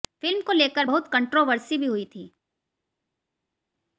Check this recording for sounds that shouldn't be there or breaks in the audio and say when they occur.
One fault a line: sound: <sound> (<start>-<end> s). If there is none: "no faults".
no faults